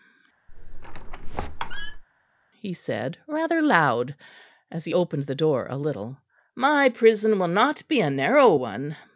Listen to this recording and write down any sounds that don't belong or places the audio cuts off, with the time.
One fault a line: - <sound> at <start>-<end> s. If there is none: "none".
- squeak at 0.5-2.0 s